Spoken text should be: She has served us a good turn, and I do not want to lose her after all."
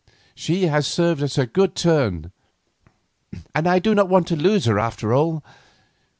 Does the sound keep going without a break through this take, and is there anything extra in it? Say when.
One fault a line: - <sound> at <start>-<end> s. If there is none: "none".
none